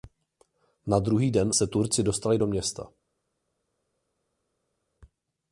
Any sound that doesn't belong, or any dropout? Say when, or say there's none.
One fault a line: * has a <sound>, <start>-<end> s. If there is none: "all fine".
all fine